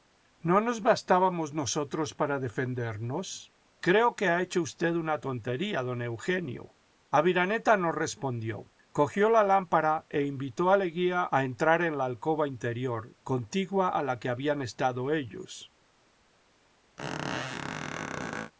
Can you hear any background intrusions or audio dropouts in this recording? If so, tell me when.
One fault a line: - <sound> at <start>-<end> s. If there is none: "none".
- squeak at 17.0-18.5 s